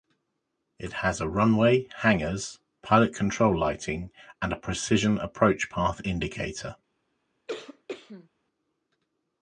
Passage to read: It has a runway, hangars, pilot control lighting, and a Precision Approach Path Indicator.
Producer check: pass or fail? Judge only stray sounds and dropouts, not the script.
fail